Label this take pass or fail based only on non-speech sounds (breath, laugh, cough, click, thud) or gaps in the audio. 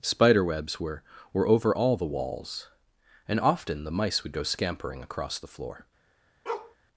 fail